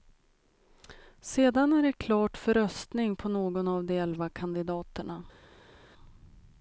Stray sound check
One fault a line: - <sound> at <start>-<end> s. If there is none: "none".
none